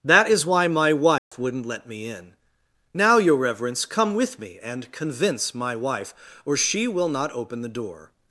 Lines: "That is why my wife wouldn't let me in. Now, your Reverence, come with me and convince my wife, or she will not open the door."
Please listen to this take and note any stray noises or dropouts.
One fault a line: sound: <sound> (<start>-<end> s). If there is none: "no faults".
sound: dropout (1.2-1.3 s)